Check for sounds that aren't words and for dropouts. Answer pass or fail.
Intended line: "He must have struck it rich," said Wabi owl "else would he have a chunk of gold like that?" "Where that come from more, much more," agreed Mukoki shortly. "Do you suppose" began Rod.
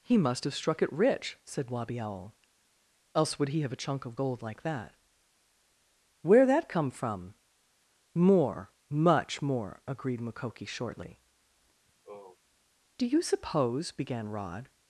fail